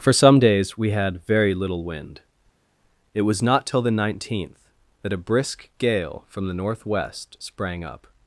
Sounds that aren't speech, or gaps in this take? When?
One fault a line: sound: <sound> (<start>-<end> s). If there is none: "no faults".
no faults